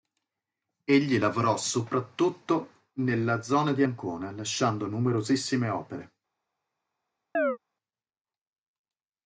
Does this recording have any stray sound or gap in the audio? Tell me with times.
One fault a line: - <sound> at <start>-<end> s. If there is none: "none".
- chirp at 7.3-7.6 s